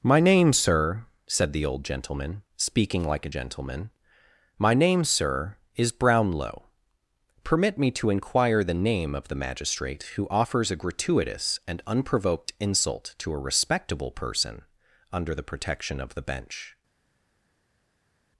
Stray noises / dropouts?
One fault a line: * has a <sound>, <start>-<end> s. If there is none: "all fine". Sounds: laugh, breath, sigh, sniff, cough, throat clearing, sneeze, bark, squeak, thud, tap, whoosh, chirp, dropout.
all fine